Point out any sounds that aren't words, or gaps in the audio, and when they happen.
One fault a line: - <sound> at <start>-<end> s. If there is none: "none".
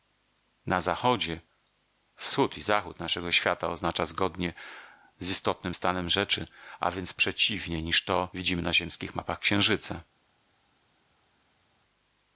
none